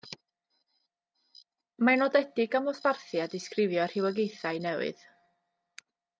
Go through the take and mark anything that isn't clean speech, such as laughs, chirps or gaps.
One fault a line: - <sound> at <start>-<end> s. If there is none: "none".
none